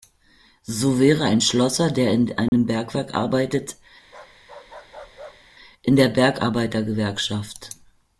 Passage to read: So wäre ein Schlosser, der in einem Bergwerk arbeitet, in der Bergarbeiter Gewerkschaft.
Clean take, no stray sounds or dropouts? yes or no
no